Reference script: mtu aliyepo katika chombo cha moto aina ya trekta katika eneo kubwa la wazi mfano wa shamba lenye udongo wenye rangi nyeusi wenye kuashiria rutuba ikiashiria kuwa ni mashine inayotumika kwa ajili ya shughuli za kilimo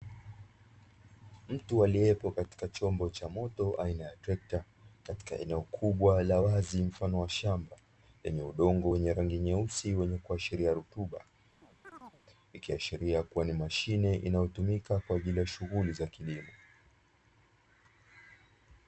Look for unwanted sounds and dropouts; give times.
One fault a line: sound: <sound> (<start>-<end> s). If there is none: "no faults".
sound: chirp (11.6-12.2 s)